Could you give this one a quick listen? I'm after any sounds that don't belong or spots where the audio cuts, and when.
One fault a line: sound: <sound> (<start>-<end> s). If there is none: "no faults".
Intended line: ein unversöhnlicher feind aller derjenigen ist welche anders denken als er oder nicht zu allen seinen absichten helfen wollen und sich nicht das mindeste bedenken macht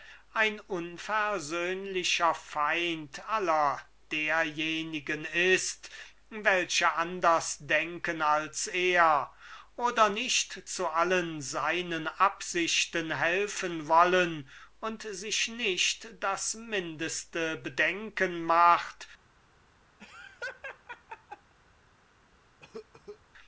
sound: laugh (20.0-21.5 s)
sound: cough (22.6-23.2 s)